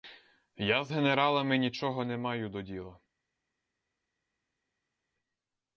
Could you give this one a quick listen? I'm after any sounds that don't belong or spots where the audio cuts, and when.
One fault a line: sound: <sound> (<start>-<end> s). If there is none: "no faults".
no faults